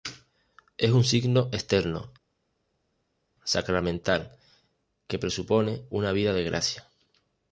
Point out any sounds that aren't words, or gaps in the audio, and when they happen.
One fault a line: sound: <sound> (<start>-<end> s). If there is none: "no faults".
no faults